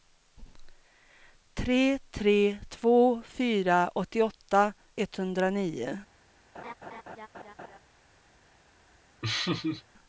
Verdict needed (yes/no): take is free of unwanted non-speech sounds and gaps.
no